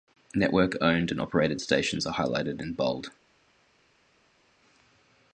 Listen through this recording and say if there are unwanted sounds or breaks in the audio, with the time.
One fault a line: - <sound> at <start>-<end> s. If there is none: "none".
none